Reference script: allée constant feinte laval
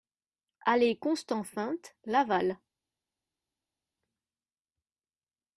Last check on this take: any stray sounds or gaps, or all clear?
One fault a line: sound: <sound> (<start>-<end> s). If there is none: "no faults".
no faults